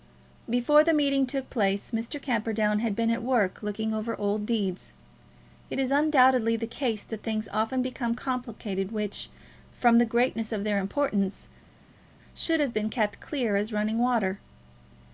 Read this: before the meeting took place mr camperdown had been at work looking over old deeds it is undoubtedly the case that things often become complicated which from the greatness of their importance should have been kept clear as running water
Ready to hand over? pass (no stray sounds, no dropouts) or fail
pass